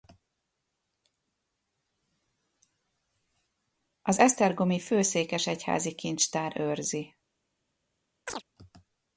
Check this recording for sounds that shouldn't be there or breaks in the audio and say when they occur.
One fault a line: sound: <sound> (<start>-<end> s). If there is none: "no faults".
sound: chirp (8.3-8.4 s)